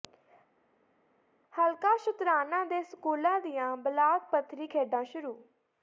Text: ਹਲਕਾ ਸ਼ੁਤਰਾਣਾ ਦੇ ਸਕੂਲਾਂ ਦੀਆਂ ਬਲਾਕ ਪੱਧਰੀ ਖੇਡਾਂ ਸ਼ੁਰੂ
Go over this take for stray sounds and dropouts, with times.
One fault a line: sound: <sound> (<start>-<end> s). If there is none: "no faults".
no faults